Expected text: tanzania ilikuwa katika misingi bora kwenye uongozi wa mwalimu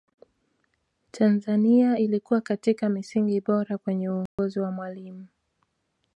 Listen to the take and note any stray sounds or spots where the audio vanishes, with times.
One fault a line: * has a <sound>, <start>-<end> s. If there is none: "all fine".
* has a dropout, 4.3-4.4 s